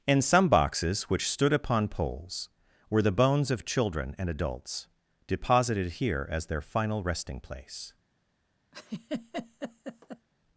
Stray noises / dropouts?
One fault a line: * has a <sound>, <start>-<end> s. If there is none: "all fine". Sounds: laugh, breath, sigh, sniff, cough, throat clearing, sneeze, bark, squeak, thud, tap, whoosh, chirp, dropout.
* has a laugh, 8.7-10.3 s